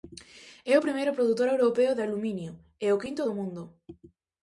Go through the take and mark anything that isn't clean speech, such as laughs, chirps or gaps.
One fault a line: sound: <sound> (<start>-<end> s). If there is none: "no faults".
no faults